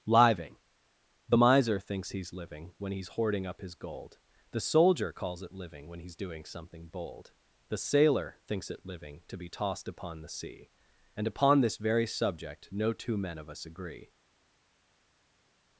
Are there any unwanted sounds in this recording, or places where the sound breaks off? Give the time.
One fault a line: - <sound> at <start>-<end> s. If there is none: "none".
none